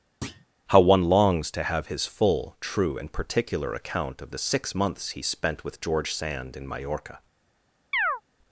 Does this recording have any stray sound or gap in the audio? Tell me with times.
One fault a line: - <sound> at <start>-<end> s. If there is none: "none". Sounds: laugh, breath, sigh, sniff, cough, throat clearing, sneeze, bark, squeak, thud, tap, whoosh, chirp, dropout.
- thud at 0.2-0.5 s
- chirp at 7.9-8.2 s